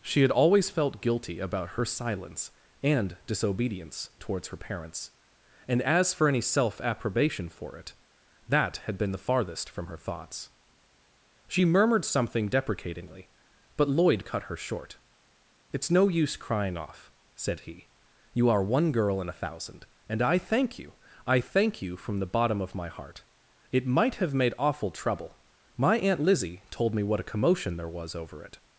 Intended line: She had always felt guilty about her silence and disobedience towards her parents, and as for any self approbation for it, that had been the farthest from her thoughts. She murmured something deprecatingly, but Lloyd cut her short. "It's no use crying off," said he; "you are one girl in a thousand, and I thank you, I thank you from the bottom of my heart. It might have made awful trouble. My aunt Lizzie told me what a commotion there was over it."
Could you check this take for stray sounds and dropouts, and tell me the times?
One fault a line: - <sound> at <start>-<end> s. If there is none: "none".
none